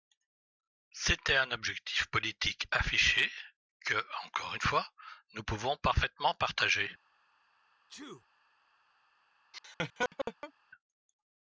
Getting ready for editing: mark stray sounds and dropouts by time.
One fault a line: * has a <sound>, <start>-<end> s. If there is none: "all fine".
* has a sneeze, 7.9-8.3 s
* has a laugh, 9.5-10.5 s